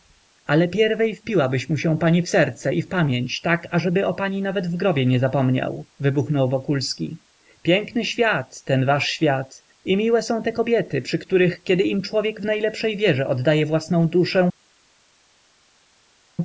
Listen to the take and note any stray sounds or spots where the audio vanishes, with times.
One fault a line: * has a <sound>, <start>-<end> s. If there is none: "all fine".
all fine